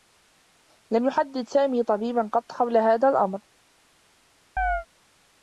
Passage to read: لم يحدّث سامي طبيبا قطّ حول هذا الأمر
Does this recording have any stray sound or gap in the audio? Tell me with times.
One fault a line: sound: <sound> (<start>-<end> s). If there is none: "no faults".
sound: chirp (4.6-4.9 s)